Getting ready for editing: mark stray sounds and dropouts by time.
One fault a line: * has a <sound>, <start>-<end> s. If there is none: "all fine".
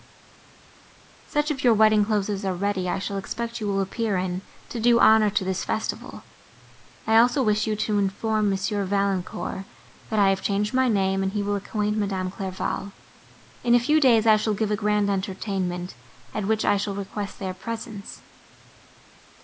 all fine